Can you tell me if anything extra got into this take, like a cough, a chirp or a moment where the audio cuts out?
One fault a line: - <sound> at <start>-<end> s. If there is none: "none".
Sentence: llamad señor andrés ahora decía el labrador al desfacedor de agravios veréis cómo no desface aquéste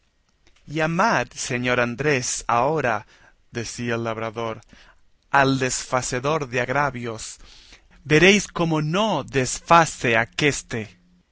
none